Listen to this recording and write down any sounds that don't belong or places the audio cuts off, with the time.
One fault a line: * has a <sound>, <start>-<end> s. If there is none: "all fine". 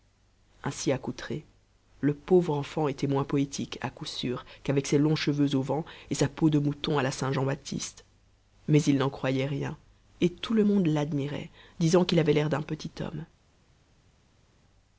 all fine